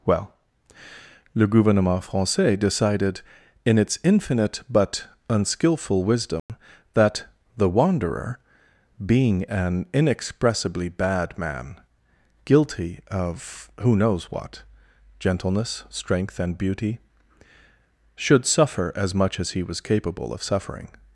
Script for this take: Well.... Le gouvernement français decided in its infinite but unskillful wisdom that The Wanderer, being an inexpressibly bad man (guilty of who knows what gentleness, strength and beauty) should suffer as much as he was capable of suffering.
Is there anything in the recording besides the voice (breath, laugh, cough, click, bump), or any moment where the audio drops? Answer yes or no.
yes